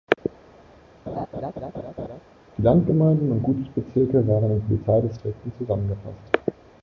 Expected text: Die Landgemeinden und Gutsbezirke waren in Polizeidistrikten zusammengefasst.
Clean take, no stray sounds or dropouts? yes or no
no